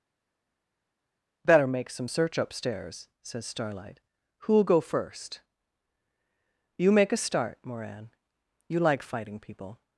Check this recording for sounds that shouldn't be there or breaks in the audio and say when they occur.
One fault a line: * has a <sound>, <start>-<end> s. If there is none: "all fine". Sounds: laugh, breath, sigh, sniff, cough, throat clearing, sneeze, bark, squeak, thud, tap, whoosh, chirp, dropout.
all fine